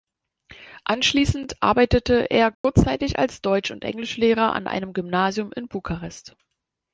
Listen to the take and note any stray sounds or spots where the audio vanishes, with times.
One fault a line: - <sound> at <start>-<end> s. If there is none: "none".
- dropout at 2.5-2.6 s